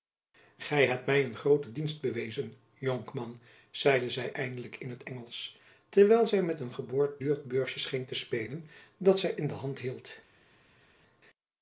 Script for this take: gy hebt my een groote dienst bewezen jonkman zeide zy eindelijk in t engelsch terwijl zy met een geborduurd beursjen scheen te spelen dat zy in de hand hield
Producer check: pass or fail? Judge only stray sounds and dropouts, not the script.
pass